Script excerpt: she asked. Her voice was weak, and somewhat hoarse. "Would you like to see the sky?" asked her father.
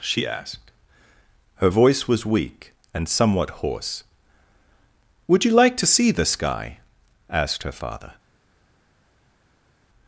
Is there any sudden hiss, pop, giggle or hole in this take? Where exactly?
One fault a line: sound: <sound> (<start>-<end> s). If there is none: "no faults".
no faults